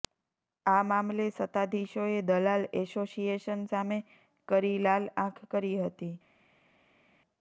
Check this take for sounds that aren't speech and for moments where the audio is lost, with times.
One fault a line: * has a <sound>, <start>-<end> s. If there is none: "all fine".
all fine